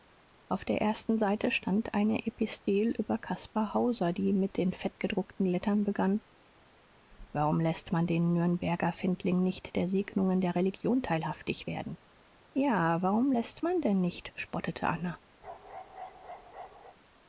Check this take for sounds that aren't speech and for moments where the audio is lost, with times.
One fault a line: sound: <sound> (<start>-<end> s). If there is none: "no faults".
sound: bark (15.4-17.0 s)